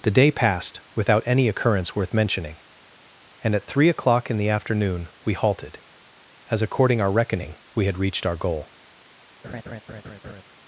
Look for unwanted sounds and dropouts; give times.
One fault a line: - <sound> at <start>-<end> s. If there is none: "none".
- laugh at 9.4-10.4 s